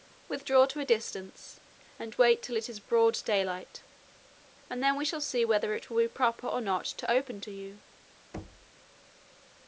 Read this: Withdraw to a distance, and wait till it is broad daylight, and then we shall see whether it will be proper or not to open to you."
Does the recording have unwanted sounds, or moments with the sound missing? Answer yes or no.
yes